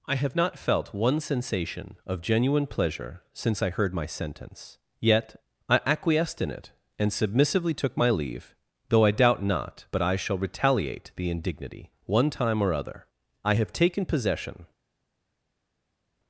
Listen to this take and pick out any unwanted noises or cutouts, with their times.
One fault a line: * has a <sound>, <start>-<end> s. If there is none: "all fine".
all fine